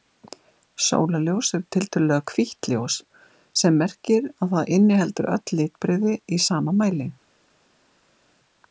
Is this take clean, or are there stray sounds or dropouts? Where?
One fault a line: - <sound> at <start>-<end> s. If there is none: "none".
none